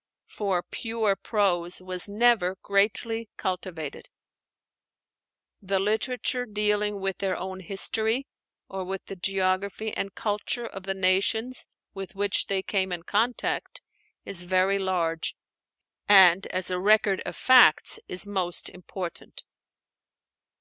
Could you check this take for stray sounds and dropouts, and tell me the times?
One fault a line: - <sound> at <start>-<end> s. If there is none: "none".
none